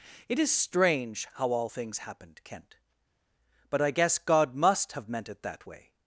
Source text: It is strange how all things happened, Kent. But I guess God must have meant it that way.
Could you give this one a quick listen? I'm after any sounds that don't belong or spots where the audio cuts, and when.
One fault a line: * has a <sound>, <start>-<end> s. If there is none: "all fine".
all fine